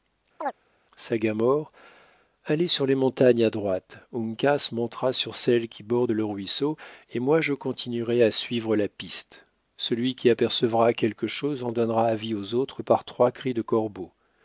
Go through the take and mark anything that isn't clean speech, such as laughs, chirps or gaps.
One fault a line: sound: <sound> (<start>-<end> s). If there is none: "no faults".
sound: chirp (0.4-0.5 s)